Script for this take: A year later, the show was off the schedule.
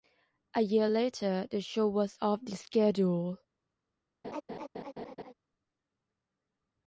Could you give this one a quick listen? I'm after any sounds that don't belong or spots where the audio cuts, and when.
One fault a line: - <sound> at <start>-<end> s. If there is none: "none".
- laugh at 4.2-5.3 s